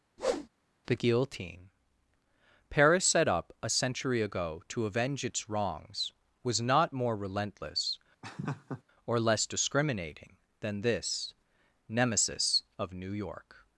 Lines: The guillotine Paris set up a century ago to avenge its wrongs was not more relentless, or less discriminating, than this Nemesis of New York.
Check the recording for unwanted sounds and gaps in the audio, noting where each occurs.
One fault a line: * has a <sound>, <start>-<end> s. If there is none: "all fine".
* has a whoosh, 0.2-0.5 s
* has a laugh, 8.2-8.8 s